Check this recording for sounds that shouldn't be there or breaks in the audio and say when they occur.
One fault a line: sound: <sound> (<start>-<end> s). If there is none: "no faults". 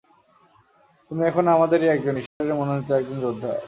sound: dropout (2.3-2.4 s)